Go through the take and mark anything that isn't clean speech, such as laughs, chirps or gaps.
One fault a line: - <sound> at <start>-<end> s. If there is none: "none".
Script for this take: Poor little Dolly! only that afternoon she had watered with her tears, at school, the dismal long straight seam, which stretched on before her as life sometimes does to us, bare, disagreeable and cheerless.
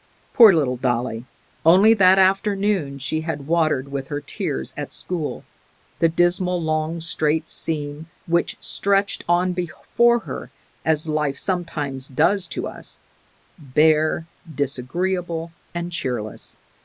none